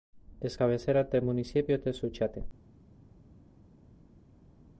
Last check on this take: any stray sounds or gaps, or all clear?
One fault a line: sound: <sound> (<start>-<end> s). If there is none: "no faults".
no faults